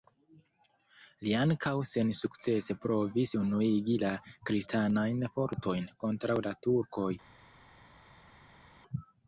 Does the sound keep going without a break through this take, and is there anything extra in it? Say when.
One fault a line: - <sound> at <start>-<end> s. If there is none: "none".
none